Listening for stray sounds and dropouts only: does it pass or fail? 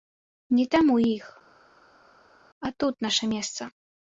pass